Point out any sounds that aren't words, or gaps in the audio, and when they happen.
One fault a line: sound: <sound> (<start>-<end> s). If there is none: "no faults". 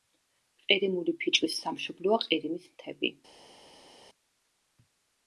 no faults